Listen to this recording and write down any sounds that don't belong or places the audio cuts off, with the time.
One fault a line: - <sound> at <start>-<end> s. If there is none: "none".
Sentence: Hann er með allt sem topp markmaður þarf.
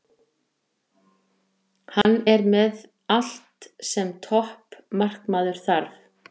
- dropout at 2.0-2.0 s